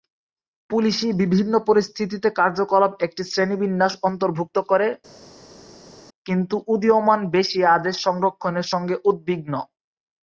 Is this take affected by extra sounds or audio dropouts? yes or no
no